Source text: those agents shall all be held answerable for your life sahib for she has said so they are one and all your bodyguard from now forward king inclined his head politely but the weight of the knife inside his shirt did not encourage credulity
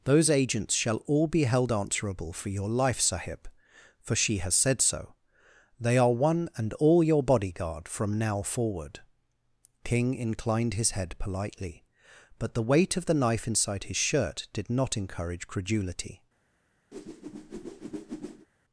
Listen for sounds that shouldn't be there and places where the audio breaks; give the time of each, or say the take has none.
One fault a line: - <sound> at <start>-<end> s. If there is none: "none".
- whoosh at 16.9-18.5 s